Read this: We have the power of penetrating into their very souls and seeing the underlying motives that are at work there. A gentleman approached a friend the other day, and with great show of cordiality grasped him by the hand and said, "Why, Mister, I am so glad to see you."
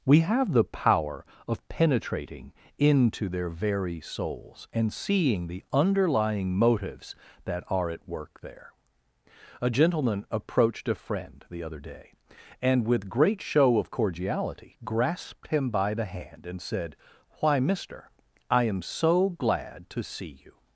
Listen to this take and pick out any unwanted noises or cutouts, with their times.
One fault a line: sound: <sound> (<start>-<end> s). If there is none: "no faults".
no faults